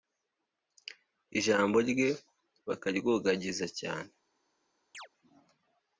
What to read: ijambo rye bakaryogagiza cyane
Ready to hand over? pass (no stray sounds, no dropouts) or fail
fail